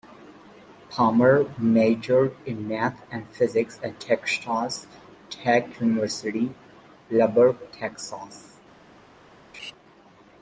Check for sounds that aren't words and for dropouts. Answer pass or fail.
fail